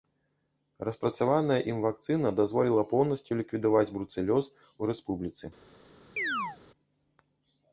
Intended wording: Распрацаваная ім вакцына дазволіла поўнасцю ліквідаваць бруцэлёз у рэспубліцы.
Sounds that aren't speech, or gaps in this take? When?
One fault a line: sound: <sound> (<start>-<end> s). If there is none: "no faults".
sound: chirp (6.2-6.6 s)